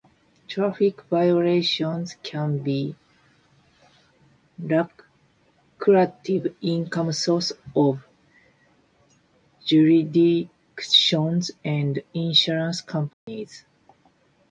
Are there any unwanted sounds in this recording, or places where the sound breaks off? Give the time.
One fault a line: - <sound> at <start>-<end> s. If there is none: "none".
- dropout at 13.1-13.3 s